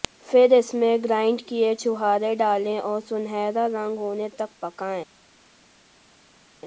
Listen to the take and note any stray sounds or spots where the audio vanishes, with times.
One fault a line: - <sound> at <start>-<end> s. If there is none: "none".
none